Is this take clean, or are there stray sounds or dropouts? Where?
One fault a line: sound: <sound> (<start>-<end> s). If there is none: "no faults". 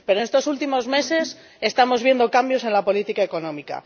no faults